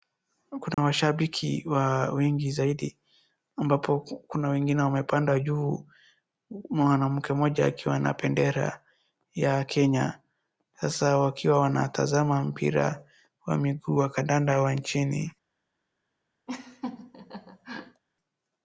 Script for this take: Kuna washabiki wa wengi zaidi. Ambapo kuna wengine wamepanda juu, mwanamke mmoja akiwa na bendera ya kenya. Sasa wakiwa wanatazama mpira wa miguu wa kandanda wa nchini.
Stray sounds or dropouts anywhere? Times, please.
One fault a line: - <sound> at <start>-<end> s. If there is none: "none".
- dropout at 0.7-0.8 s
- laugh at 16.5-18.0 s